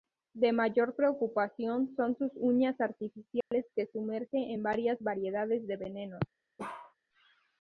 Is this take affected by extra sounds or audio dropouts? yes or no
yes